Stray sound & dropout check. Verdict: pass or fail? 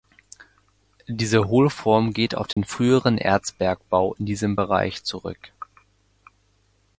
fail